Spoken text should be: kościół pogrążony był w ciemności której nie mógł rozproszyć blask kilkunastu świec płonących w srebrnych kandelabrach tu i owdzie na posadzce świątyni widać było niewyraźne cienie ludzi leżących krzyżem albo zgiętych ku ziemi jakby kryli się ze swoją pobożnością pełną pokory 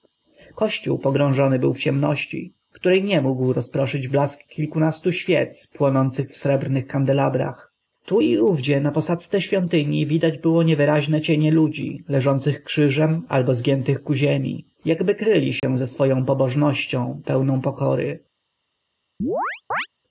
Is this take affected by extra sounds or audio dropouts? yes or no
yes